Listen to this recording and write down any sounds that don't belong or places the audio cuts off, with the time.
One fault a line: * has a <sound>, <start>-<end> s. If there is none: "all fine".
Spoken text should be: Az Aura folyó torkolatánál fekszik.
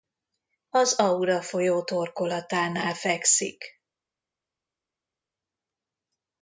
all fine